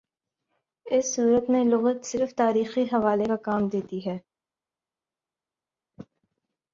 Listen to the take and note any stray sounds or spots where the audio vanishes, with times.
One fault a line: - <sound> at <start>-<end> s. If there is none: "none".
none